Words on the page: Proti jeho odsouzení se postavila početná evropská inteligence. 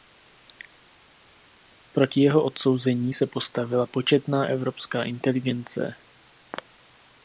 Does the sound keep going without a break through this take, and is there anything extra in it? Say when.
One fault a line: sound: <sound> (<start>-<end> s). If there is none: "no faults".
no faults